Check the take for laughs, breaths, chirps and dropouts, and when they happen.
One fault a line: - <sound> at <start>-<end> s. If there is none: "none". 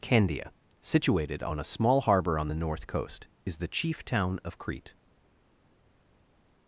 none